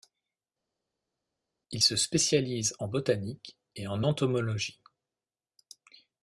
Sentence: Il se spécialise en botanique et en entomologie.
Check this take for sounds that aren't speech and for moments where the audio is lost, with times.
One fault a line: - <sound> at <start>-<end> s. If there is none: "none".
none